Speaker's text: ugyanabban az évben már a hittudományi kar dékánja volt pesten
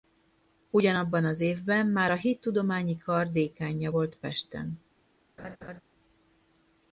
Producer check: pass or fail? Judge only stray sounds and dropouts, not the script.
fail